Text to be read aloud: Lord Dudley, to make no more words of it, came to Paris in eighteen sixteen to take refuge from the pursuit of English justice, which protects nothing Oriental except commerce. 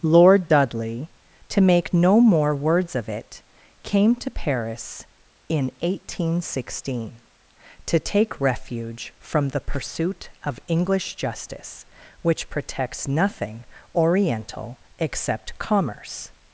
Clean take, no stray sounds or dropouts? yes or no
yes